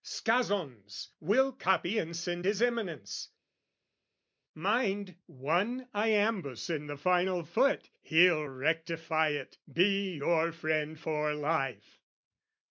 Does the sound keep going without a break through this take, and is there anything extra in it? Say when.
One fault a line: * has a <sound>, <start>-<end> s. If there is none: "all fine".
all fine